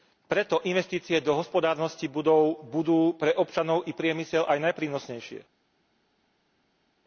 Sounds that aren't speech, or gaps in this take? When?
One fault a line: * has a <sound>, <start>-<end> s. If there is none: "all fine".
all fine